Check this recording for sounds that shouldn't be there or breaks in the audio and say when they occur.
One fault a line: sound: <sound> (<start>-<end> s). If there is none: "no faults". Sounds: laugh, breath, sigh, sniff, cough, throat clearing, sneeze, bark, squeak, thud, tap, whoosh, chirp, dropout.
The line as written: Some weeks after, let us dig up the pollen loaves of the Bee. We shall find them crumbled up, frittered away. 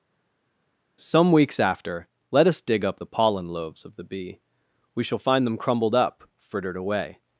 no faults